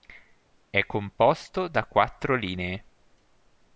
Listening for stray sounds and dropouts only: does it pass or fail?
pass